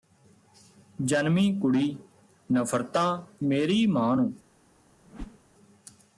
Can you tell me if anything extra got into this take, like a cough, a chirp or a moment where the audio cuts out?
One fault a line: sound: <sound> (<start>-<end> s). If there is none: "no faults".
sound: whoosh (5.0-5.4 s)